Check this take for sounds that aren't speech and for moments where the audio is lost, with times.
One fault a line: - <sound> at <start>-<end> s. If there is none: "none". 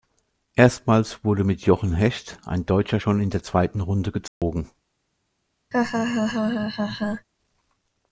- dropout at 4.3-4.4 s
- laugh at 5.7-7.3 s